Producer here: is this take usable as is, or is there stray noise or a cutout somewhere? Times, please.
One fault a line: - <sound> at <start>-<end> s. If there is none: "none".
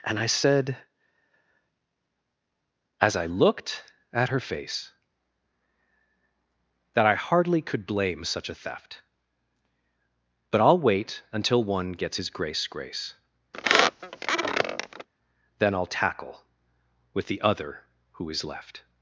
- squeak at 13.5-15.1 s